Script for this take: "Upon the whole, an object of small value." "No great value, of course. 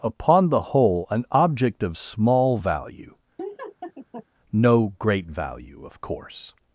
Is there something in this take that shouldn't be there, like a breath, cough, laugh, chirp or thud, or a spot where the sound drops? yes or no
yes